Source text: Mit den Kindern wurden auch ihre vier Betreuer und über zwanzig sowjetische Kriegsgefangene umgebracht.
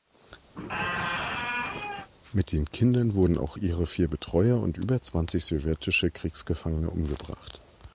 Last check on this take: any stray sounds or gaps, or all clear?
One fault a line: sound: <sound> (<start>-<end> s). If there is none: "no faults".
sound: squeak (0.5-2.1 s)